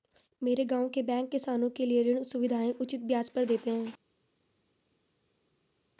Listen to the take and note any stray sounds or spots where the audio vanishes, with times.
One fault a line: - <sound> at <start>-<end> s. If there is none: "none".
none